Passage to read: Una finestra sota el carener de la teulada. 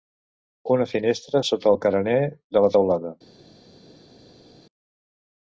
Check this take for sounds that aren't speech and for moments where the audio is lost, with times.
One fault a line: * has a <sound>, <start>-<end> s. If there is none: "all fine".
all fine